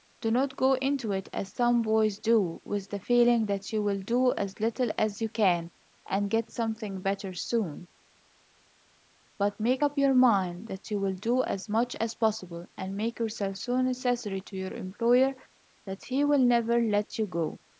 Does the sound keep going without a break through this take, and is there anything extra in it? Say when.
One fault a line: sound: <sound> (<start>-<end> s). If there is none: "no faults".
no faults